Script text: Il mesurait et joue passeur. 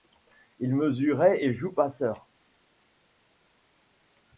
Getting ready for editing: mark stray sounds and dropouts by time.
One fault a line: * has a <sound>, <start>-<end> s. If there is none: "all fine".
all fine